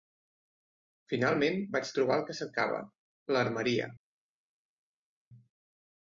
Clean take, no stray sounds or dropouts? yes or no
yes